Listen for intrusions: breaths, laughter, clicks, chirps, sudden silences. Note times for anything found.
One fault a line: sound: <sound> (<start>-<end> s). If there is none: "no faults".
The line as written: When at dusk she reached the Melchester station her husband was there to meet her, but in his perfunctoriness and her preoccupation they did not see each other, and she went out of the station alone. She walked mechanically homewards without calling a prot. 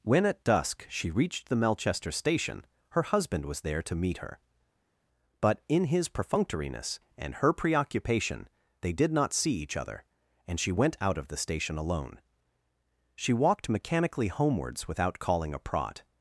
no faults